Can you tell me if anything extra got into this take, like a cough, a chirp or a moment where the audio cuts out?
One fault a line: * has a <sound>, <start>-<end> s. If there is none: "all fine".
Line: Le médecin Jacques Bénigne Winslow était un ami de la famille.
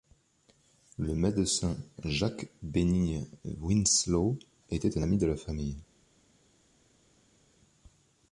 all fine